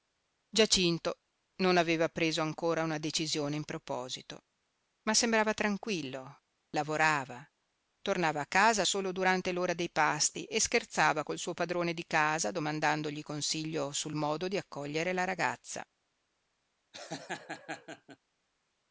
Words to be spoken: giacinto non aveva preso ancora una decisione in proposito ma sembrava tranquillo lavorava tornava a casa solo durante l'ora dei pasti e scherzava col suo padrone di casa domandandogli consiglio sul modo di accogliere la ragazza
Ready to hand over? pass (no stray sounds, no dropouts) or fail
fail